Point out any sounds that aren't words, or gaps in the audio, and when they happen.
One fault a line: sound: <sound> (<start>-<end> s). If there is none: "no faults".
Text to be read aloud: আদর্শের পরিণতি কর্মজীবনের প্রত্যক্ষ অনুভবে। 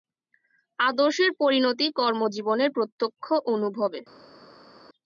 no faults